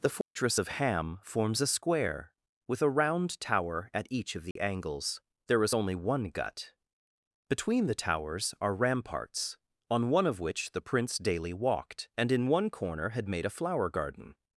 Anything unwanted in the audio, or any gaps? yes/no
yes